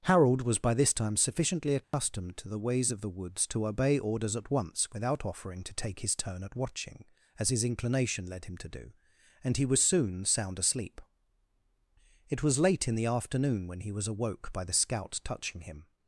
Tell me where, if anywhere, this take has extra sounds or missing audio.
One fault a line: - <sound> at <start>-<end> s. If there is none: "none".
- dropout at 1.8-1.9 s